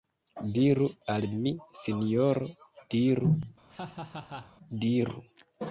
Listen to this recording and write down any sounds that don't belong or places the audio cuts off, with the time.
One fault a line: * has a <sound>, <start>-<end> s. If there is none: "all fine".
* has a laugh, 3.7-4.5 s